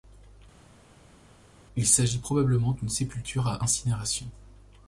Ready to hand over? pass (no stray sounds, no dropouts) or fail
pass